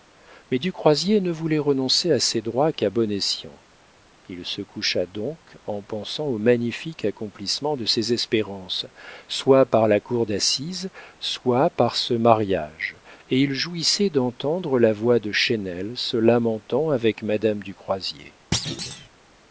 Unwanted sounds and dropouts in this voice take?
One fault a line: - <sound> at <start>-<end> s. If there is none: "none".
- thud at 18.5-19.1 s